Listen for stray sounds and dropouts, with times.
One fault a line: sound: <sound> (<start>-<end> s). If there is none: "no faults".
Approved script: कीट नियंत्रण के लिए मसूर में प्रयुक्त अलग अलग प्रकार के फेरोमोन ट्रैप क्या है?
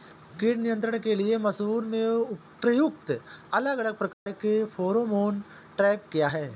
sound: dropout (4.1-4.3 s)